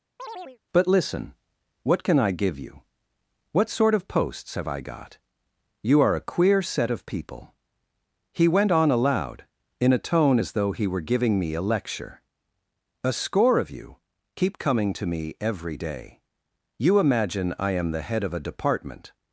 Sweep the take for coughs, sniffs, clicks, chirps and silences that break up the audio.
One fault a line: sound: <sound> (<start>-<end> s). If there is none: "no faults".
sound: chirp (0.2-0.6 s)